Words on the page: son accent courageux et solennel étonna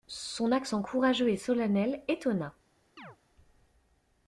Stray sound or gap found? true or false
true